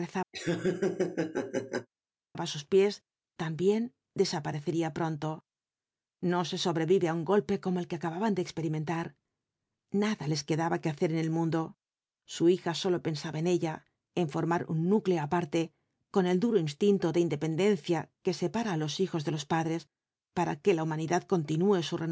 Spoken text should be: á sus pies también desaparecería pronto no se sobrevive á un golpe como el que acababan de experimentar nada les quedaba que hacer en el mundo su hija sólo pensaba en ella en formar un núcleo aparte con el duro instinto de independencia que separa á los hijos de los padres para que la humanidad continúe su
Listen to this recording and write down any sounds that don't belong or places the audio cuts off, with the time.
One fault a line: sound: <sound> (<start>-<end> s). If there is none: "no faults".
sound: laugh (0.3-1.9 s)